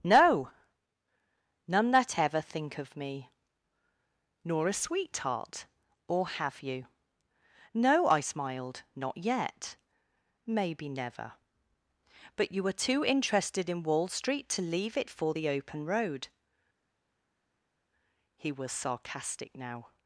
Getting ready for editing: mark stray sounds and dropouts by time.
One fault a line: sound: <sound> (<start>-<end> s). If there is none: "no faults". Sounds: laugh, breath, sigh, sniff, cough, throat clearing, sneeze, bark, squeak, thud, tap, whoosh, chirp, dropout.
no faults